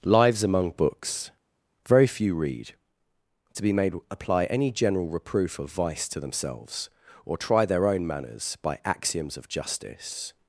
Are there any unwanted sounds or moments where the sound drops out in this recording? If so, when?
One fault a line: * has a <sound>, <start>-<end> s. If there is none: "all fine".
all fine